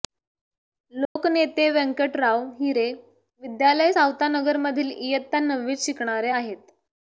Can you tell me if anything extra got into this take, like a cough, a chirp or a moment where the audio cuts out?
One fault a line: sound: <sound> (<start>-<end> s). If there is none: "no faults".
sound: dropout (1.0-1.2 s)